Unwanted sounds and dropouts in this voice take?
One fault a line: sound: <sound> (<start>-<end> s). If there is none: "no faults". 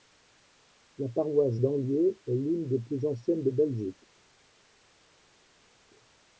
no faults